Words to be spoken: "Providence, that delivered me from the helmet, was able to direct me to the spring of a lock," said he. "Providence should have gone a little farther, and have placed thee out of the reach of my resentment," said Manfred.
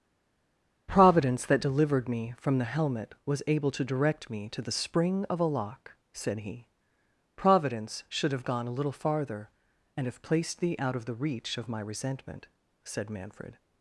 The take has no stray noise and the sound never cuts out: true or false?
true